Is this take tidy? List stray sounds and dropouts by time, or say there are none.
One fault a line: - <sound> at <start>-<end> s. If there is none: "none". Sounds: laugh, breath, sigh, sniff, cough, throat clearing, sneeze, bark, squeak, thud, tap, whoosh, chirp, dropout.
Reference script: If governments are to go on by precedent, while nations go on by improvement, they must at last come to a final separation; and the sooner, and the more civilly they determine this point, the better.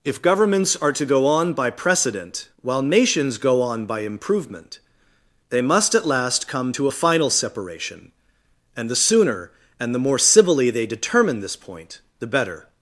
none